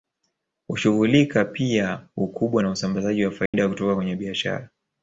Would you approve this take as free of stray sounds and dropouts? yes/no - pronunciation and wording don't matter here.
no